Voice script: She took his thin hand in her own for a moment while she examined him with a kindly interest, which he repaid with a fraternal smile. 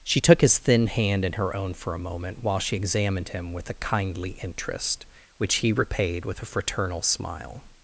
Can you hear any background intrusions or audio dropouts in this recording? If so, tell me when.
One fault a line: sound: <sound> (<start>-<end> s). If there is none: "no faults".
no faults